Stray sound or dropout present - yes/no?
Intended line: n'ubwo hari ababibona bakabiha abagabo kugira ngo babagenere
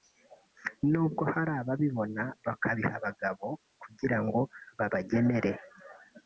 no